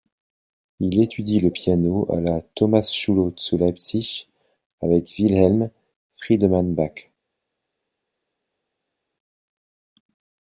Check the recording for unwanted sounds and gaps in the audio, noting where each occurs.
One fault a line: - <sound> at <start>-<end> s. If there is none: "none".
none